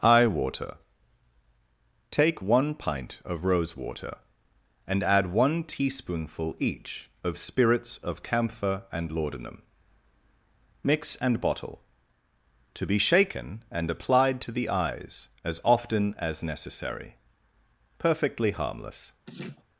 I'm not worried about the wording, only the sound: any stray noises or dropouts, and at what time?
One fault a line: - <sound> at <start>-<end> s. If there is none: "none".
- laugh at 19.3-19.6 s